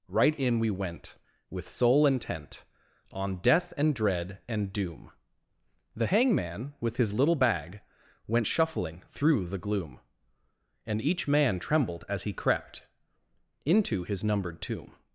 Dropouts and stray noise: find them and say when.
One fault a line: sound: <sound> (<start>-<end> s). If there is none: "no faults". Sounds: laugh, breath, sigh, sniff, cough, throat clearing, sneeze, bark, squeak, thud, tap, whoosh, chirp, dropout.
no faults